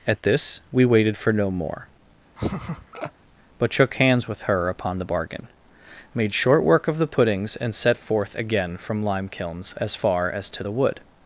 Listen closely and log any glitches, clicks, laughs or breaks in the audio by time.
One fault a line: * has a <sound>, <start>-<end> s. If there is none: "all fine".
* has a laugh, 2.4-3.1 s